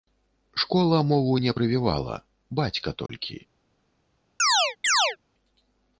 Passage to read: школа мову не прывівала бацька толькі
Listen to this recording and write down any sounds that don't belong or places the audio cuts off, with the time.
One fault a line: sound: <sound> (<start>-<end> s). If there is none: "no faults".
sound: dropout (3.1-3.1 s)
sound: chirp (4.4-5.2 s)